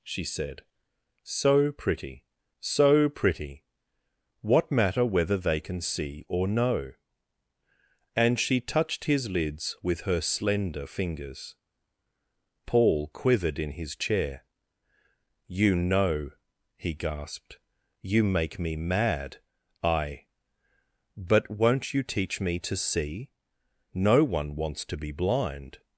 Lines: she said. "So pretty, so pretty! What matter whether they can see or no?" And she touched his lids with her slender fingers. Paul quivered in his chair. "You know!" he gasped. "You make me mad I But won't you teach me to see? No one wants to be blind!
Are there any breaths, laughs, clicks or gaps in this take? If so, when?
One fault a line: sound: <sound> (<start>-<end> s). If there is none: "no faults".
no faults